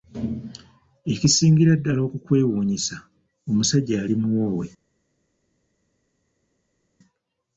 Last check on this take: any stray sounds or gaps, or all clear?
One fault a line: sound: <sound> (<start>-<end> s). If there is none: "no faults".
no faults